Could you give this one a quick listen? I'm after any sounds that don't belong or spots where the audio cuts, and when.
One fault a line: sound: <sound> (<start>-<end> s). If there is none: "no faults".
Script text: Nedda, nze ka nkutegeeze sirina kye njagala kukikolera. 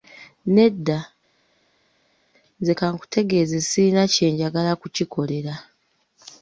no faults